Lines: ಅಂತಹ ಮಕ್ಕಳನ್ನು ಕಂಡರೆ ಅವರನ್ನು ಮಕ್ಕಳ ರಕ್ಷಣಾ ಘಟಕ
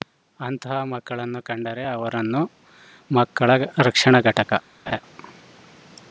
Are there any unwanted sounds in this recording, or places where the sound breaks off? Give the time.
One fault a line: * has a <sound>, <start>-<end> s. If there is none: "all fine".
* has a laugh, 4.9-5.0 s